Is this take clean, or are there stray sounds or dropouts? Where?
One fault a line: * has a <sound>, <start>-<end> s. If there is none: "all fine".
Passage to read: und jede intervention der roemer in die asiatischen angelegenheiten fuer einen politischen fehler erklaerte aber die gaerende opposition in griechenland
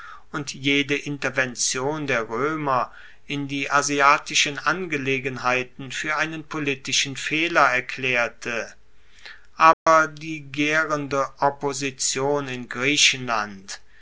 * has a dropout, 9.7-9.9 s